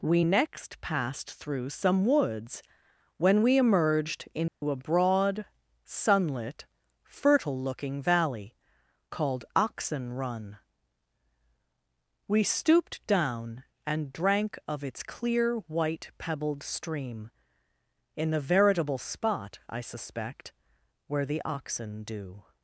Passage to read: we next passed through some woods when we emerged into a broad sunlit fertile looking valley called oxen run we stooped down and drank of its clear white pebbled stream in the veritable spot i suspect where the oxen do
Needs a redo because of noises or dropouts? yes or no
yes